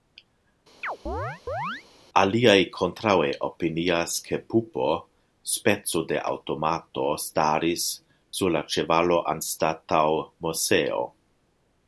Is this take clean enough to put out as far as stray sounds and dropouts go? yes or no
no